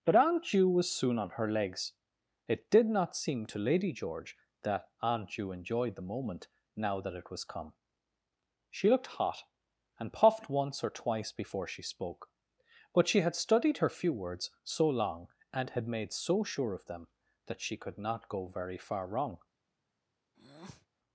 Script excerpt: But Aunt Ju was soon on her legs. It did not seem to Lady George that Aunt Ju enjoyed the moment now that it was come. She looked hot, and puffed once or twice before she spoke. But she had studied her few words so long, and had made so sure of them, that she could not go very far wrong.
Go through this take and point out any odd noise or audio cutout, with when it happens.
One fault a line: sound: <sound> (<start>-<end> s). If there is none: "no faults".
sound: breath (20.3-20.9 s)